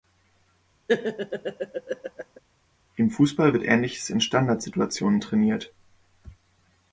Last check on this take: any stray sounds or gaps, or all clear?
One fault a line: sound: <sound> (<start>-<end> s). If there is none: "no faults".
sound: laugh (0.9-2.4 s)